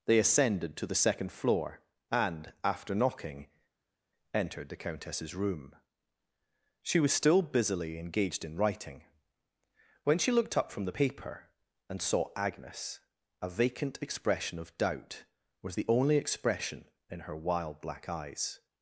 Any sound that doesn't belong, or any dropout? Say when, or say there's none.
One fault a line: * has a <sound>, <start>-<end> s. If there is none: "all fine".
all fine